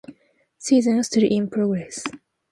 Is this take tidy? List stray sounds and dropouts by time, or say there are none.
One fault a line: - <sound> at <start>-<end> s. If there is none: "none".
none